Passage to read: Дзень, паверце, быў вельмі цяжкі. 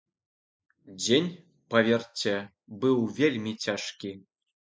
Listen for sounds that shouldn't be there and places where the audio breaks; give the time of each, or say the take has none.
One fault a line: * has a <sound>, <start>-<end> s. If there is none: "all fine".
all fine